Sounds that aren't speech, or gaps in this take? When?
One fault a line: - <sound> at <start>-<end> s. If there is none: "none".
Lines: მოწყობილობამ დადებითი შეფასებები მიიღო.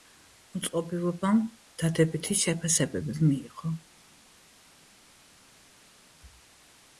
none